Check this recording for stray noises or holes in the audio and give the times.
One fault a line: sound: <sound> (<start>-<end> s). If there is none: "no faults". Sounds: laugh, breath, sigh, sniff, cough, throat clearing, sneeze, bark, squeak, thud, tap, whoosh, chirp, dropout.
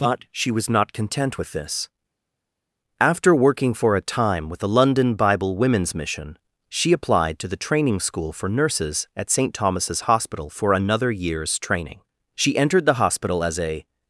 no faults